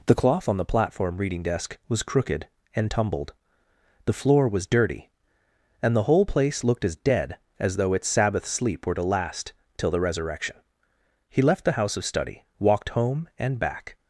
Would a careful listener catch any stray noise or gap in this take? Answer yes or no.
no